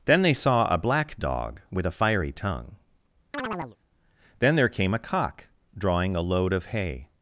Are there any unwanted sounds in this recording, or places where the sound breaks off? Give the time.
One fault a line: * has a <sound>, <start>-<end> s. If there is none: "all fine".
* has a chirp, 3.3-3.8 s